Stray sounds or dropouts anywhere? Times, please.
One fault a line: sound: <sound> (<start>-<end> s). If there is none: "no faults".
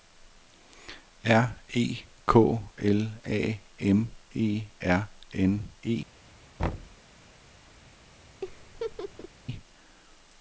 sound: thud (6.6-7.0 s)
sound: laugh (8.4-9.3 s)